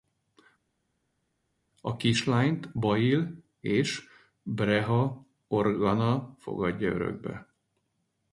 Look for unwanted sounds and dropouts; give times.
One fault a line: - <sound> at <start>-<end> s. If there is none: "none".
none